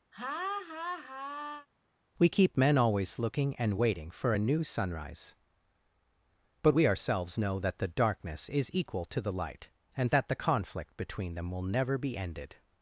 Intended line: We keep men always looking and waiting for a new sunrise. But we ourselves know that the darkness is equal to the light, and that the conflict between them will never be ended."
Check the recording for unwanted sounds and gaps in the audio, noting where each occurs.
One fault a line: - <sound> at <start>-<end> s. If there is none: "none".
- laugh at 0.1-1.7 s